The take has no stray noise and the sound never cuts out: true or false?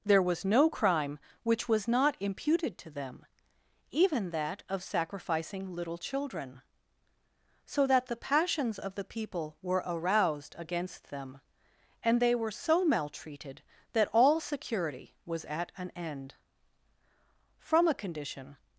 true